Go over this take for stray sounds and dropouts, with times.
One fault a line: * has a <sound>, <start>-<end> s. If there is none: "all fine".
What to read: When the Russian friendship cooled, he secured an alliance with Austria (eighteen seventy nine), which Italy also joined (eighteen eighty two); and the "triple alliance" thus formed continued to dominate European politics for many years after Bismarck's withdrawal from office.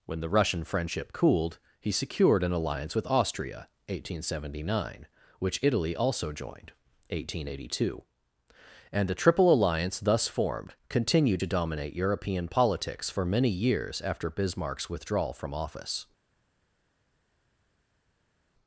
all fine